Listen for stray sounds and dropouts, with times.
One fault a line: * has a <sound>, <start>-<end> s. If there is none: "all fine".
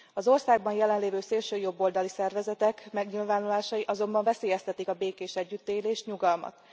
all fine